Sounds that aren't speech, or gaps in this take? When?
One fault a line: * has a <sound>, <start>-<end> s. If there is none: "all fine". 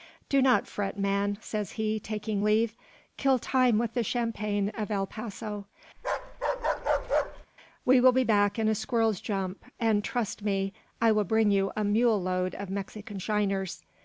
* has a bark, 6.0-7.5 s